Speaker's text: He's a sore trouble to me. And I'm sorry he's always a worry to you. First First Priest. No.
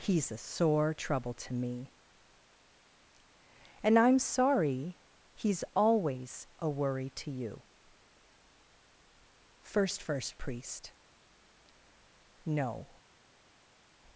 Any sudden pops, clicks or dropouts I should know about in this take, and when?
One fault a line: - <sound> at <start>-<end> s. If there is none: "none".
none